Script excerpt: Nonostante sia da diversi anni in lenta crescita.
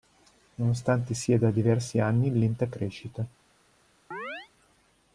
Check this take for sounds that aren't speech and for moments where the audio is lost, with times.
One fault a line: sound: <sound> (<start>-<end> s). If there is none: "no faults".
sound: chirp (4.1-4.5 s)